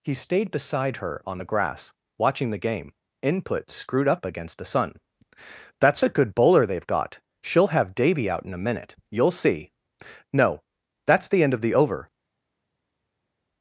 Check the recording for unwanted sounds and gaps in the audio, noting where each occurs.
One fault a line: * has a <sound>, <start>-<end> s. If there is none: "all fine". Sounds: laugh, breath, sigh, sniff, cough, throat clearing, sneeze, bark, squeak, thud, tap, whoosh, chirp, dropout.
all fine